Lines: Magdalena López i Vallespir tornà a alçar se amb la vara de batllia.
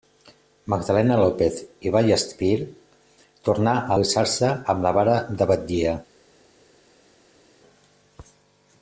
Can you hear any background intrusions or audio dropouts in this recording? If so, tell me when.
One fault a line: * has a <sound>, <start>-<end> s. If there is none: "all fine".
all fine